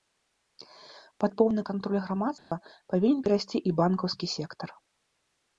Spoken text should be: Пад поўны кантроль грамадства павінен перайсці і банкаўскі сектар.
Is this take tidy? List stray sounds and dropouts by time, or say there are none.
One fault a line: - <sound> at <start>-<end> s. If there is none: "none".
- dropout at 2.4-2.5 s